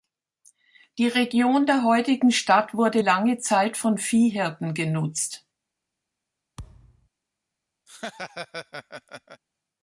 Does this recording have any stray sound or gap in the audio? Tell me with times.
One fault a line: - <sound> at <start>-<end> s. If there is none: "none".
- thud at 6.6-7.1 s
- laugh at 7.9-9.4 s